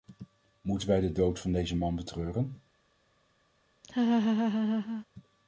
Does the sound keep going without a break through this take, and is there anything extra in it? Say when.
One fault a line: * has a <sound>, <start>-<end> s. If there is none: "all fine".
* has a laugh, 3.8-5.1 s